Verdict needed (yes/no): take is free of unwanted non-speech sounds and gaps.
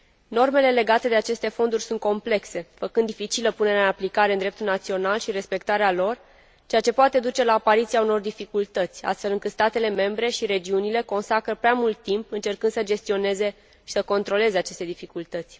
yes